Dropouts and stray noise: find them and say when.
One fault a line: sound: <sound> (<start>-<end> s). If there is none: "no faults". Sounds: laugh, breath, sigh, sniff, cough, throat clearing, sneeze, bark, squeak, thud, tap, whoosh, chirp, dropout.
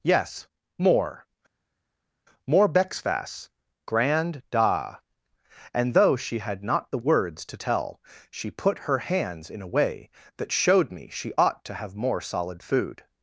no faults